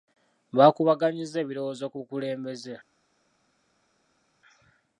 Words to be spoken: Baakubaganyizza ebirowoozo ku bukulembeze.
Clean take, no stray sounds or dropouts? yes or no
yes